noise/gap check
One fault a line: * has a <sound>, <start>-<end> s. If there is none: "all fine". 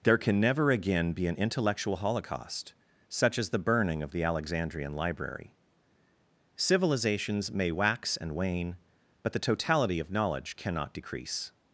all fine